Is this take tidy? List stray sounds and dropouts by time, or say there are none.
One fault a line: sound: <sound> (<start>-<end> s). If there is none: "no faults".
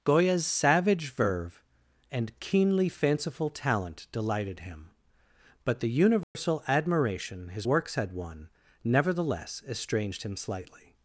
sound: dropout (6.2-6.3 s)